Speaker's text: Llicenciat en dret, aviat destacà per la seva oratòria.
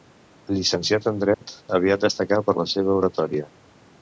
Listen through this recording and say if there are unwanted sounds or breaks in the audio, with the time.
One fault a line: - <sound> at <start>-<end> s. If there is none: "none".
- dropout at 1.3-1.4 s